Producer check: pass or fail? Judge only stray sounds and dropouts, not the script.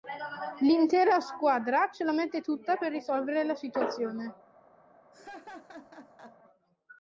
fail